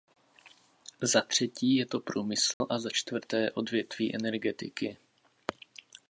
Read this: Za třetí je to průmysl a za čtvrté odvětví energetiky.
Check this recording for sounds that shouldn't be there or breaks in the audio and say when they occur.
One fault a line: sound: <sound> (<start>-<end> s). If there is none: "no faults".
sound: dropout (2.5-2.6 s)